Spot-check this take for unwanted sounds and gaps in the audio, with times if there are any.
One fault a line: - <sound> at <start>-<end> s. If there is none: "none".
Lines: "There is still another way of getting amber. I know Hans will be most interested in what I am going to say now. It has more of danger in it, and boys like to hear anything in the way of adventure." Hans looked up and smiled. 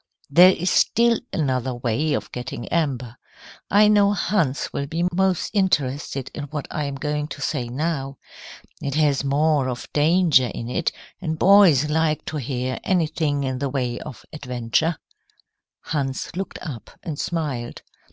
none